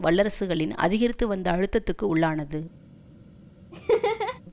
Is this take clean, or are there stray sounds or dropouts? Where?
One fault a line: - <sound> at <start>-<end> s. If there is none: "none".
- laugh at 3.7-4.4 s